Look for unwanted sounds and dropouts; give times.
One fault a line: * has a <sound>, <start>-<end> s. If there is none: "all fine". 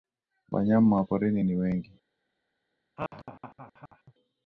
* has a laugh, 3.0-4.1 s